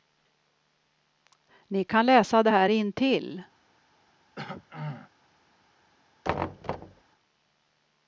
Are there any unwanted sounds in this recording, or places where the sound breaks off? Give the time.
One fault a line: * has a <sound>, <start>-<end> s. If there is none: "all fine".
* has a throat clearing, 4.3-5.1 s
* has a thud, 6.2-7.0 s